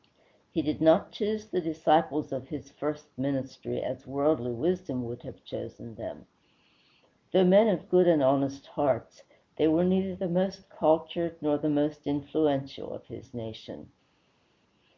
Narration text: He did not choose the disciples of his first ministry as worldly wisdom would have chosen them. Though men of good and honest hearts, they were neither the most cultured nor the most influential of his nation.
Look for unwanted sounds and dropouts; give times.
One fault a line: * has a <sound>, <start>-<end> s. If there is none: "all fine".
all fine